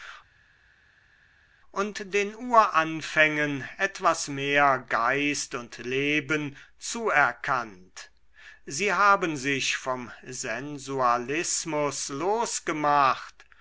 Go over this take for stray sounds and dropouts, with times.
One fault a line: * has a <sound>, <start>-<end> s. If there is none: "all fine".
all fine